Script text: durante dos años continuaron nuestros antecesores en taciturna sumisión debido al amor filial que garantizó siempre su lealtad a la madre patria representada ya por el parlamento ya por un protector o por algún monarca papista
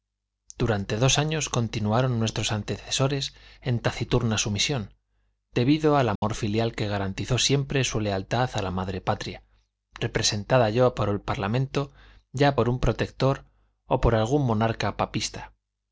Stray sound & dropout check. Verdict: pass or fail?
fail